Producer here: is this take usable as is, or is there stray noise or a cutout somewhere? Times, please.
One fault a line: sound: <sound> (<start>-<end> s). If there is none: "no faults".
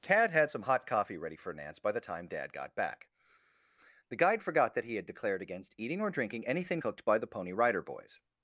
no faults